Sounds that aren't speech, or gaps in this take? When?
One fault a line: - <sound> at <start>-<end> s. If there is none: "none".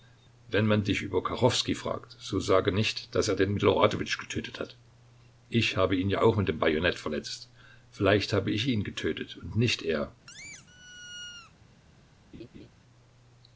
- squeak at 10.3-11.5 s
- laugh at 12.3-12.7 s